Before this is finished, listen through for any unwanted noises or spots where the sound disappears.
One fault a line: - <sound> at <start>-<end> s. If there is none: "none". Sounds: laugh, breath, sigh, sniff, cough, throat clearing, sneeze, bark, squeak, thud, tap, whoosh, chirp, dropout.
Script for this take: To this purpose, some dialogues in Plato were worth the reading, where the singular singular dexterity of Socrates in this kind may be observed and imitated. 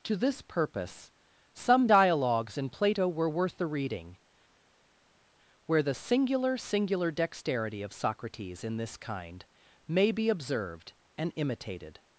none